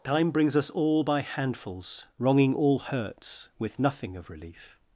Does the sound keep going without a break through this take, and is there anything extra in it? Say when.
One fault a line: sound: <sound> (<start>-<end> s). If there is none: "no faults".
no faults